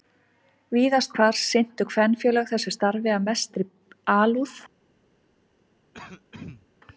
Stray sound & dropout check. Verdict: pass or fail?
fail